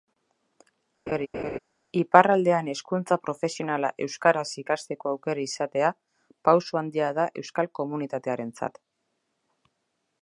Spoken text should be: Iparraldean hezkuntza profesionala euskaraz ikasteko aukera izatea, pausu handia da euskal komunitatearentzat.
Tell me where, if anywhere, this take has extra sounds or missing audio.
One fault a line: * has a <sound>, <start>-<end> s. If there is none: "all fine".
* has a laugh, 1.1-1.6 s